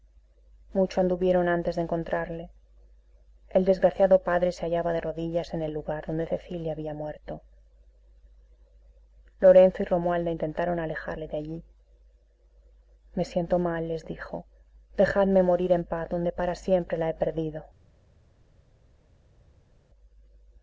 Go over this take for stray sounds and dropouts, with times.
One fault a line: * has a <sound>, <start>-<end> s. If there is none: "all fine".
all fine